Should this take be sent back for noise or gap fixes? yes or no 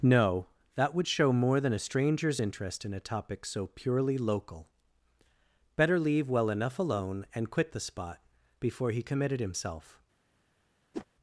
yes